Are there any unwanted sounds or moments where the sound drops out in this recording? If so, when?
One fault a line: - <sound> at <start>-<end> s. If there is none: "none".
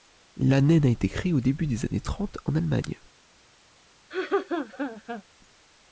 - laugh at 4.1-5.2 s